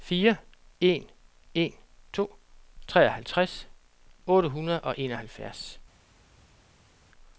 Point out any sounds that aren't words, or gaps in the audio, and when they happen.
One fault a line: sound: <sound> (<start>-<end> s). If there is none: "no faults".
no faults